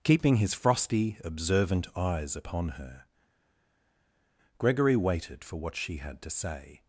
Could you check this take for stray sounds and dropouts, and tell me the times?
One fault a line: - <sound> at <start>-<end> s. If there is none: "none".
none